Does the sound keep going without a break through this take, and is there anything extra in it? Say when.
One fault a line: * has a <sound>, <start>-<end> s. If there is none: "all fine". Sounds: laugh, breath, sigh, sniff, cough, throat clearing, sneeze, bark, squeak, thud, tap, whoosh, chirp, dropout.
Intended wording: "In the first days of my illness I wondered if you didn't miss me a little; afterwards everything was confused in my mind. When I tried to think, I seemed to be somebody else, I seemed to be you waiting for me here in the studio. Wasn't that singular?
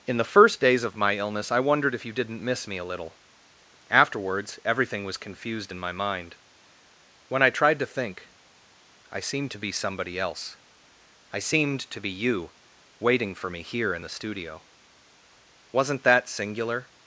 all fine